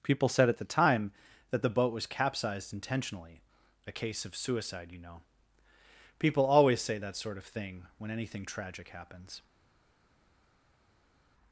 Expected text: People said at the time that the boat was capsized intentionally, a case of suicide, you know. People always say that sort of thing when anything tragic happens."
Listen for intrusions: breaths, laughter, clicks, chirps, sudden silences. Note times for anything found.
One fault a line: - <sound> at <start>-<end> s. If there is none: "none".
none